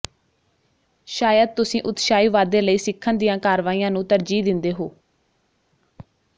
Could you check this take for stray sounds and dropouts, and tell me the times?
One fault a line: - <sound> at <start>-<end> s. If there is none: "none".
none